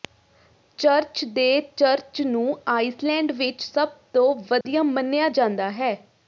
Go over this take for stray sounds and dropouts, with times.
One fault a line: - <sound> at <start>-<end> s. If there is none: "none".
- dropout at 4.6-4.7 s